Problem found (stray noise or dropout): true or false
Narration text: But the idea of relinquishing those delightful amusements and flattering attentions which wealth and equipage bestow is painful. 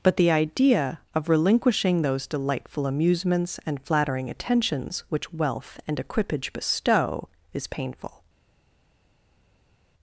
false